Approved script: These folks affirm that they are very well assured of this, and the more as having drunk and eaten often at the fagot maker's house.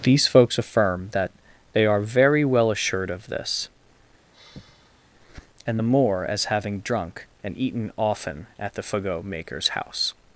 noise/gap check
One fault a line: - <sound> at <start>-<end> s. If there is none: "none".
- sigh at 4.3-5.1 s